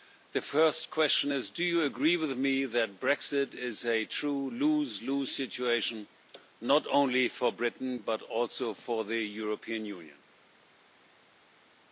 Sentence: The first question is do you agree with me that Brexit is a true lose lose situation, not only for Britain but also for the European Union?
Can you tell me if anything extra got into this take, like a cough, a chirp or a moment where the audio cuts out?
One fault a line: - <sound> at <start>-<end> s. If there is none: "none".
none